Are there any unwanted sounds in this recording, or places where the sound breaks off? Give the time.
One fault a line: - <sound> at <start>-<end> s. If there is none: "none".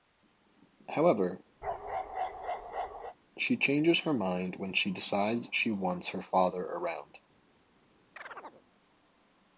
- bark at 1.6-3.2 s
- chirp at 8.2-8.6 s